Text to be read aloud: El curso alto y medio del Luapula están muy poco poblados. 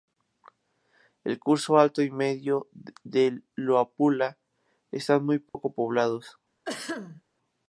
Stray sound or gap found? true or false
true